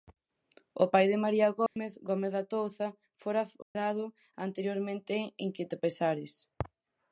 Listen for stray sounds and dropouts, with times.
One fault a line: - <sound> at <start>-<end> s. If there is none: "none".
- dropout at 1.7-1.8 s
- dropout at 3.6-3.8 s